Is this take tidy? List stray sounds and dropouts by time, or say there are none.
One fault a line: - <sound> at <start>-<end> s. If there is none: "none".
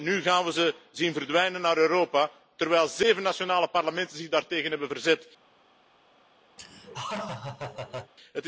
- laugh at 6.6-8.1 s